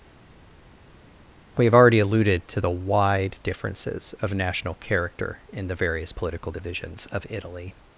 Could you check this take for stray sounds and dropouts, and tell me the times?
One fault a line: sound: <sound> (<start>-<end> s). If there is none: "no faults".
no faults